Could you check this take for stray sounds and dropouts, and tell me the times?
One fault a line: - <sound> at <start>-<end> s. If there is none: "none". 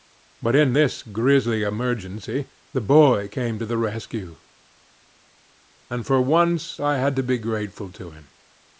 none